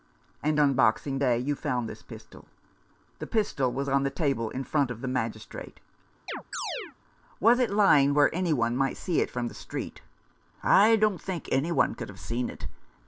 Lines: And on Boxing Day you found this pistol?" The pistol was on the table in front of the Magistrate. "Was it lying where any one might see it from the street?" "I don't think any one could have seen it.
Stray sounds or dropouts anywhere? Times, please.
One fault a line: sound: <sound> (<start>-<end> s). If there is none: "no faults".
sound: chirp (6.3-7.0 s)